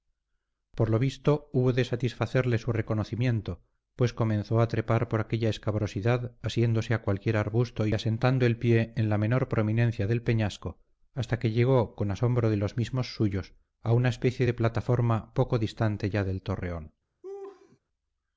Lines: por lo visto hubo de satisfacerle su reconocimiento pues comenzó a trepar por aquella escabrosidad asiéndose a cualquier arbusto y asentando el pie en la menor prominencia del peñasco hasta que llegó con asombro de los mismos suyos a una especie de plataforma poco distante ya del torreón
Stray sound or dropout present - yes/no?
yes